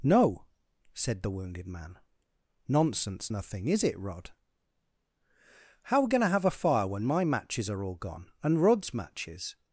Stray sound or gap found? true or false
false